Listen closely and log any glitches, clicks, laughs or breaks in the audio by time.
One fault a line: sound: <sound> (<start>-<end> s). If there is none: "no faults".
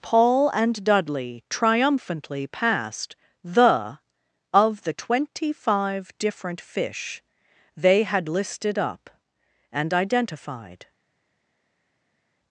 no faults